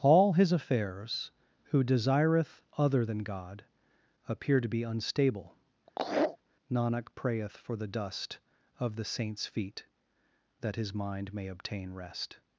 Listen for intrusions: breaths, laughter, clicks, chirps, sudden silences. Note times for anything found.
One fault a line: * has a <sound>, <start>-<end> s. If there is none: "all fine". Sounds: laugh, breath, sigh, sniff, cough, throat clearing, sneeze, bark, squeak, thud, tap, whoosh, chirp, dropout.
* has a laugh, 5.9-6.4 s